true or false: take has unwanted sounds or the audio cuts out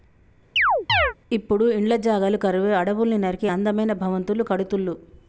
true